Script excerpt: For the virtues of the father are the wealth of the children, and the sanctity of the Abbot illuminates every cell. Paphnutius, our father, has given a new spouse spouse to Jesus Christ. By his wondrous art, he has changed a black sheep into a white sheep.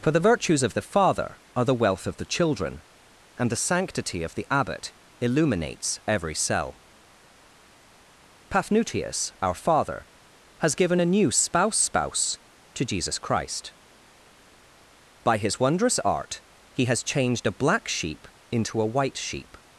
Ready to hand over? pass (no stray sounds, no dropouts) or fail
pass